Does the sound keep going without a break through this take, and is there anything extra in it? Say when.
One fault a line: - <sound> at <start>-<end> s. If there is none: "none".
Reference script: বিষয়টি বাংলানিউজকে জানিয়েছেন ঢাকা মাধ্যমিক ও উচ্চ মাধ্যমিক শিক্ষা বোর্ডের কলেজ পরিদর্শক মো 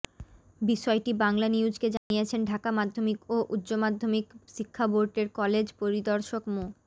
- dropout at 2.0-2.1 s